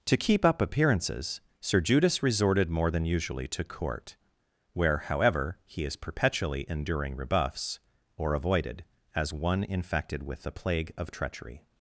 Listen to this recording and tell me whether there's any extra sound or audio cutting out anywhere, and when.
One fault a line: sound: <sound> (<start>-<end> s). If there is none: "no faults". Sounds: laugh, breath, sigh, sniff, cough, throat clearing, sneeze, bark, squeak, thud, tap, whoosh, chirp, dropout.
no faults